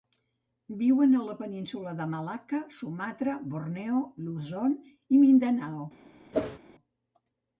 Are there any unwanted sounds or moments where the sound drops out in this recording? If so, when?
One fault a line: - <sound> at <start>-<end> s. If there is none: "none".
- whoosh at 6.3-6.6 s